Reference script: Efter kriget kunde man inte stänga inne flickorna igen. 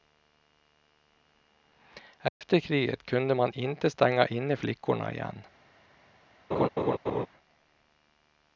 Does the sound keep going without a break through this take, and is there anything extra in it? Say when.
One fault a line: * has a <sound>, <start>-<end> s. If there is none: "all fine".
* has a dropout, 2.3-2.4 s
* has a laugh, 6.5-7.3 s